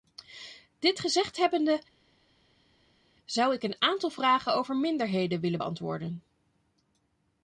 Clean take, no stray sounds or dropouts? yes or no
yes